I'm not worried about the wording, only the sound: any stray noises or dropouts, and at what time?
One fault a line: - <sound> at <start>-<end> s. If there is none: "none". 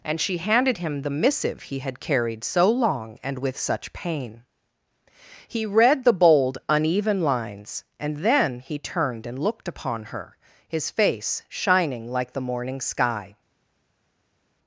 none